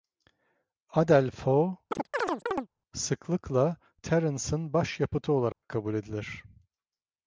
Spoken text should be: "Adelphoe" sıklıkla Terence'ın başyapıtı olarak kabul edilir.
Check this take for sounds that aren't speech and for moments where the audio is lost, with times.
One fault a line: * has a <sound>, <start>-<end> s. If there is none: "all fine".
* has a chirp, 1.9-2.7 s
* has a dropout, 5.5-5.6 s